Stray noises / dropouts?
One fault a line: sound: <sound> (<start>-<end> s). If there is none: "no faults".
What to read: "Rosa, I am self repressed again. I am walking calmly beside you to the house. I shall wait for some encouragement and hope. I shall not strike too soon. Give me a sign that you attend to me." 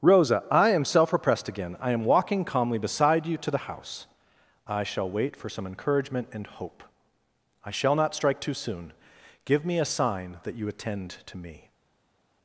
no faults